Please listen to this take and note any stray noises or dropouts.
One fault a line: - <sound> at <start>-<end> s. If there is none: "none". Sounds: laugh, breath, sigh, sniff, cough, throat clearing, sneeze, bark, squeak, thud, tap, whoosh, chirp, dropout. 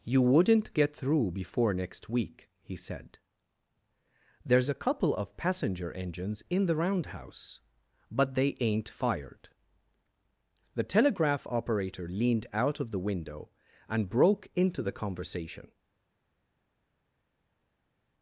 none